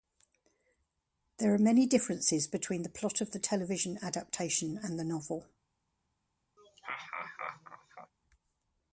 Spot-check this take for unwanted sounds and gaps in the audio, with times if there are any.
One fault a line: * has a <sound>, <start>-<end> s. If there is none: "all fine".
* has a laugh, 6.6-8.1 s